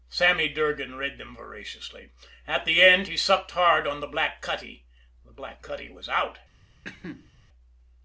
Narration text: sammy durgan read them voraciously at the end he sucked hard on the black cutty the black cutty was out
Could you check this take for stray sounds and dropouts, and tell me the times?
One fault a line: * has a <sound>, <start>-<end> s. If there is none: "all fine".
* has a cough, 6.8-7.3 s